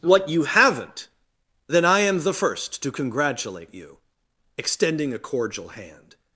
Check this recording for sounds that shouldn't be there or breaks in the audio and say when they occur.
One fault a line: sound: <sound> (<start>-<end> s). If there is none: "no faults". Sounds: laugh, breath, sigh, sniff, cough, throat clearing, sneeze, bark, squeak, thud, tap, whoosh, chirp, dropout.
no faults